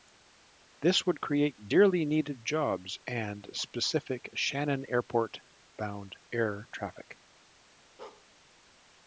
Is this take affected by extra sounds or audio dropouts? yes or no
yes